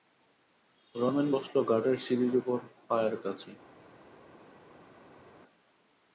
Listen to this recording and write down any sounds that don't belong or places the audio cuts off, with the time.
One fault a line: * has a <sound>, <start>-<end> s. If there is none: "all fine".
all fine